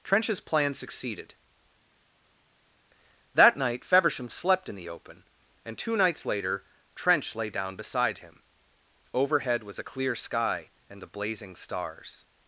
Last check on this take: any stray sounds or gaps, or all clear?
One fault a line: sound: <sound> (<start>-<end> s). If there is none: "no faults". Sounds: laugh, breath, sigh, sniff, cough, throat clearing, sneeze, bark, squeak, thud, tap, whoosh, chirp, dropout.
no faults